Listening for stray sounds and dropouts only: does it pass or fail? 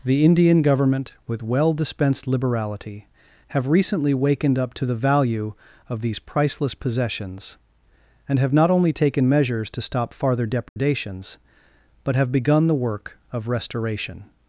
fail